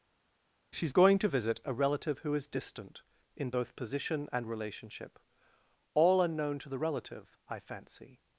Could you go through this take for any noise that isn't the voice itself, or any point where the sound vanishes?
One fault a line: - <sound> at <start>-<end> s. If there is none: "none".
none